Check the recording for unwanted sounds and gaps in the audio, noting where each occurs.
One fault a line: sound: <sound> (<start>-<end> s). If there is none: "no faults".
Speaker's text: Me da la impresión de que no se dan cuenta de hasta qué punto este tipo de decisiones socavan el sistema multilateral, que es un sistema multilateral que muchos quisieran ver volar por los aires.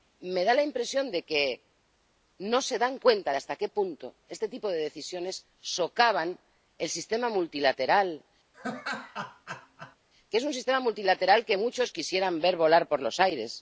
sound: laugh (8.5-10.0 s)